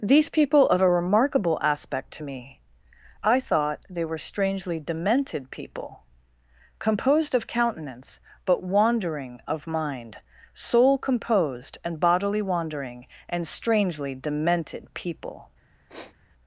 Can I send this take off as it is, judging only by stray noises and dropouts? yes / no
no